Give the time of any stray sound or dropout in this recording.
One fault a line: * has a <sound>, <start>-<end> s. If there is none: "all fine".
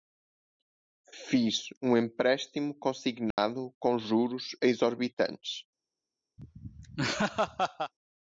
* has a dropout, 3.3-3.4 s
* has a laugh, 6.4-7.9 s